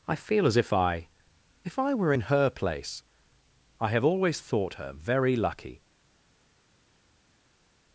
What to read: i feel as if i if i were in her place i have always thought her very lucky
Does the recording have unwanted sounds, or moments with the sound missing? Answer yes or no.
no